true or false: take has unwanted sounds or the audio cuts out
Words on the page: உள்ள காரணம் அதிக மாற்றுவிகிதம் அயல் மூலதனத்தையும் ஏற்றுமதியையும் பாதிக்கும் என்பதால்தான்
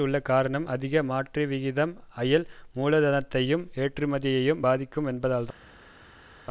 false